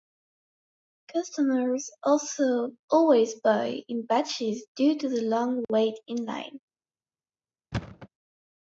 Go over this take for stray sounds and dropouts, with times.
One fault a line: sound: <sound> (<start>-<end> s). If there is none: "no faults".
sound: thud (7.7-8.1 s)